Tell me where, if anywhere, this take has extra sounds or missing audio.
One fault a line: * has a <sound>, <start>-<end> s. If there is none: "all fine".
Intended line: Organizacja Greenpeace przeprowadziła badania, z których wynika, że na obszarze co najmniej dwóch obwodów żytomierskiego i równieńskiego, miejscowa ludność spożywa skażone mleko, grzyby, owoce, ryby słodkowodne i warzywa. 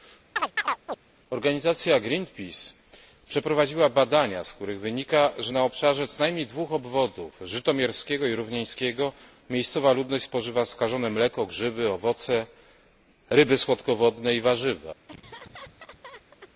* has a chirp, 0.4-1.0 s
* has a laugh, 15.1-16.5 s